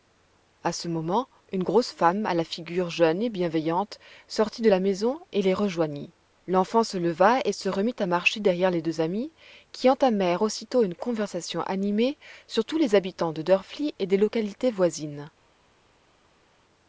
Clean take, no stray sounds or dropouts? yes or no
yes